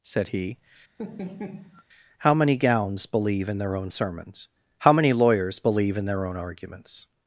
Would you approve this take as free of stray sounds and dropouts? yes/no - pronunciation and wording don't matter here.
no